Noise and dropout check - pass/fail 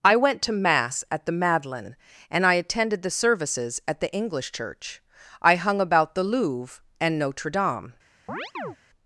fail